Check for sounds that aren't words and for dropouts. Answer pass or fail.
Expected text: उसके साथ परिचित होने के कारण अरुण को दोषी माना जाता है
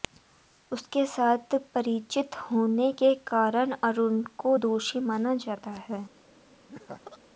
fail